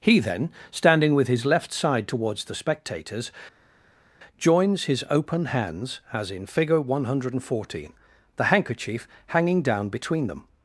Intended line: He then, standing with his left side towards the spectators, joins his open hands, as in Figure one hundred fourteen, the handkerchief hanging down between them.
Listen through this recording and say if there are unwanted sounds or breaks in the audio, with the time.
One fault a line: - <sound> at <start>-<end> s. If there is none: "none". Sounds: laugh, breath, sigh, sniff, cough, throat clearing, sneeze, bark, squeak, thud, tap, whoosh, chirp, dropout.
none